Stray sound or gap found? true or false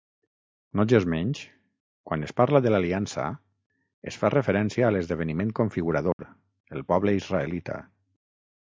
true